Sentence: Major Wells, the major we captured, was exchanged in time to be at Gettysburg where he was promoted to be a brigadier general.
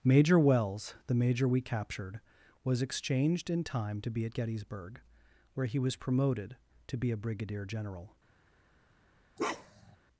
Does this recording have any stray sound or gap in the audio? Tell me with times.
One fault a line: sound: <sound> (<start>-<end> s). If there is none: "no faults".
sound: bark (9.4-10.0 s)